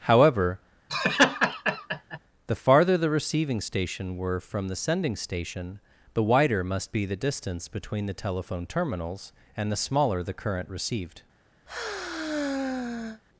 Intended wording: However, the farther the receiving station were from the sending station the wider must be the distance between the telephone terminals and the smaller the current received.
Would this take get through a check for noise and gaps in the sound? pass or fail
fail